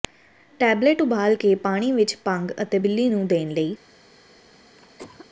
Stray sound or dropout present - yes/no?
yes